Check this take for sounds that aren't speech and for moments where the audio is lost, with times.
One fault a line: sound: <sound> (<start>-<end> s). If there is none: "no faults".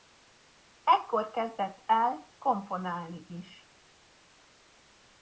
no faults